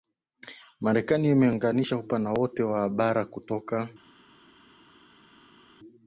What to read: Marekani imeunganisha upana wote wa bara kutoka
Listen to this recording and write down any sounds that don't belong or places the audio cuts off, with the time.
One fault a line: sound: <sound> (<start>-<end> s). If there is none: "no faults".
no faults